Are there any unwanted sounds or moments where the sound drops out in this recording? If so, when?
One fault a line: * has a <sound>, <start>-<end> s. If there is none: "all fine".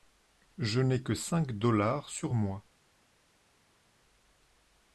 all fine